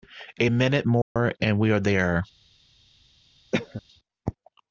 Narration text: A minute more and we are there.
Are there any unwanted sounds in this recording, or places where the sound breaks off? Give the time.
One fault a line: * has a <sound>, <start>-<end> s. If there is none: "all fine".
* has a dropout, 1.0-1.2 s
* has a cough, 3.5-3.8 s